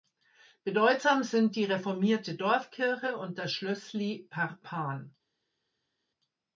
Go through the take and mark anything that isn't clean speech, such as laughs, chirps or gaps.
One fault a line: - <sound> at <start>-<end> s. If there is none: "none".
none